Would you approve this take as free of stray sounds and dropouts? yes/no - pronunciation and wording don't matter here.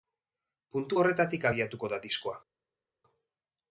yes